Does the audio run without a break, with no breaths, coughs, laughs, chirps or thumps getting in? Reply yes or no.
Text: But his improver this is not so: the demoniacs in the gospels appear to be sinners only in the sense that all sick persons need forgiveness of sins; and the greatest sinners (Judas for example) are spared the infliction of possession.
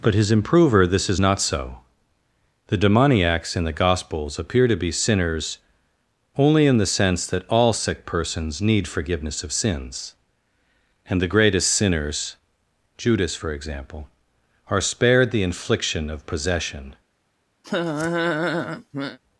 no